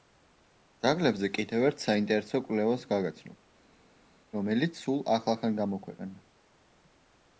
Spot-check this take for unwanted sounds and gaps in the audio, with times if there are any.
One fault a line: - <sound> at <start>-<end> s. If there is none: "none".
none